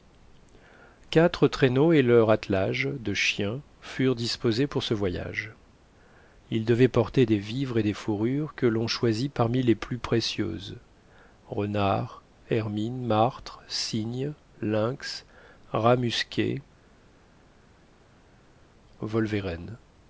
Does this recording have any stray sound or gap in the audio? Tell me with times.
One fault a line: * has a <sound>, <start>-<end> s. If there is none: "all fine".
all fine